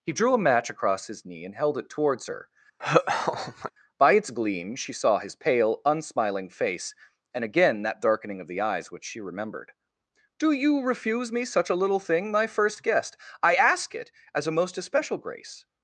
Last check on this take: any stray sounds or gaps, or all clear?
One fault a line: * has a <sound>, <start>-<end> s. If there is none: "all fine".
* has a laugh, 2.8-3.7 s